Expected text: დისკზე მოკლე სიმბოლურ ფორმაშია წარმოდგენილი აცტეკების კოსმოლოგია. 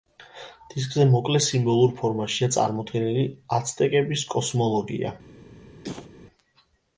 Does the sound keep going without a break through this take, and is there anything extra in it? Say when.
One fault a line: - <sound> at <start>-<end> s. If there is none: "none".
- cough at 5.8-6.1 s